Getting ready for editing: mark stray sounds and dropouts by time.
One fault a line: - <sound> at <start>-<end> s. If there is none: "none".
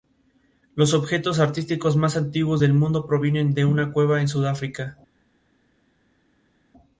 none